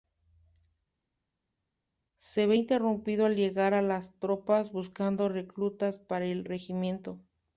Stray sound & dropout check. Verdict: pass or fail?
pass